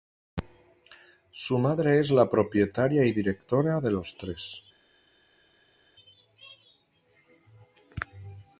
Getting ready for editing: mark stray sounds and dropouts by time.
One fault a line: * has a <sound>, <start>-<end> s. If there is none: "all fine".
all fine